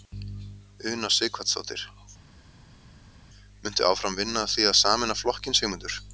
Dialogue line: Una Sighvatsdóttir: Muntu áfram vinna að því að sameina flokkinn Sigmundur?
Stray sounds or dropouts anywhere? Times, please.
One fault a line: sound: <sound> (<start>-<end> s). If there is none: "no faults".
no faults